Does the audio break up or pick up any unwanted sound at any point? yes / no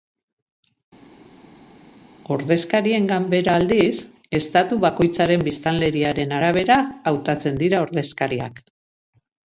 no